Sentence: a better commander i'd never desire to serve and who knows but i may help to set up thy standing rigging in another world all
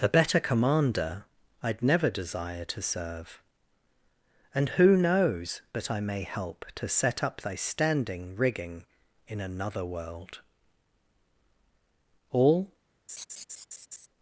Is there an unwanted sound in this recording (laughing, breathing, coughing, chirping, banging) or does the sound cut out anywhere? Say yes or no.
yes